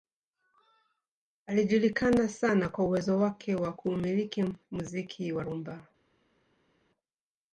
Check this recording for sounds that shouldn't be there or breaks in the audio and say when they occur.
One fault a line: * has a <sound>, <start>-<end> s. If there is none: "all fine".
all fine